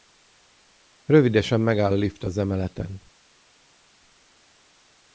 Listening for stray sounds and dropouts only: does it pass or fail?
pass